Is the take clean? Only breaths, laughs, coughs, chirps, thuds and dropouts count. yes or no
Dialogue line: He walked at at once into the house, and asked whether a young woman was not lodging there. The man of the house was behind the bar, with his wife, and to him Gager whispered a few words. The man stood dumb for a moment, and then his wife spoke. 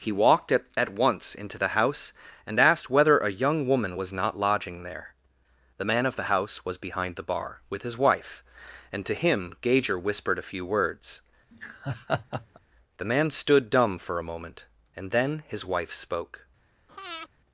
no